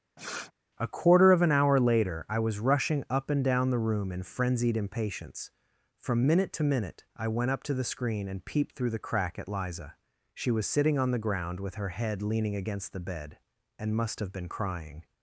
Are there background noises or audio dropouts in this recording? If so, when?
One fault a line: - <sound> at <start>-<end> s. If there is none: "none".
- sniff at 0.2-0.5 s